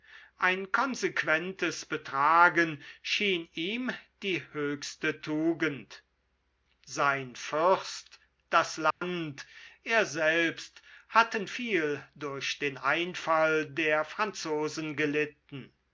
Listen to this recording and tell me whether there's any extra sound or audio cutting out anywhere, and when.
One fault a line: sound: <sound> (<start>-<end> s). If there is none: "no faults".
sound: dropout (8.9-9.0 s)